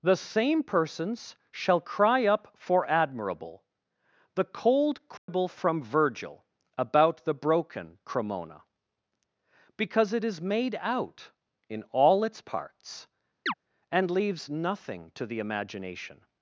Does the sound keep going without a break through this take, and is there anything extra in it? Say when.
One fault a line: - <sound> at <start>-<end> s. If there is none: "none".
- dropout at 5.2-5.3 s
- chirp at 13.5-13.5 s